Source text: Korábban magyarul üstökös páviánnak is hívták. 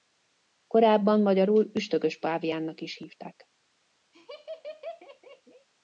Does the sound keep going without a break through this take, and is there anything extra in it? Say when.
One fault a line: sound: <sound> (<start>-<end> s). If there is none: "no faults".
sound: laugh (4.1-5.7 s)